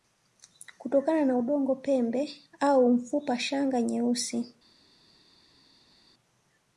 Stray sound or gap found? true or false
false